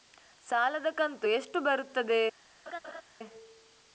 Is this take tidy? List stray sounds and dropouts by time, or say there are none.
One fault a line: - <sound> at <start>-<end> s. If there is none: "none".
- laugh at 2.7-3.0 s